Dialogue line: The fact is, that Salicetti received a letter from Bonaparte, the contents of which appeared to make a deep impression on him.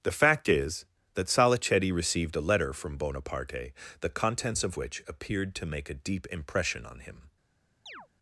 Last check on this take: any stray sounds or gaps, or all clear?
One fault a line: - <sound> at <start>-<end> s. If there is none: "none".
- chirp at 7.9-8.1 s